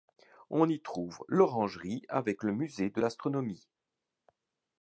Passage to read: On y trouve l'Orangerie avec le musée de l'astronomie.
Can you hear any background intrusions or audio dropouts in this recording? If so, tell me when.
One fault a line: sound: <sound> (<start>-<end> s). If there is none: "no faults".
no faults